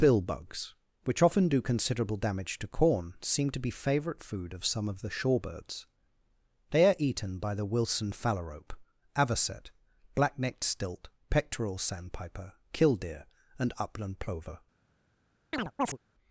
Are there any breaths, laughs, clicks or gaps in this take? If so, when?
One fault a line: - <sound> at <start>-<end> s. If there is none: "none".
- chirp at 15.5-16.0 s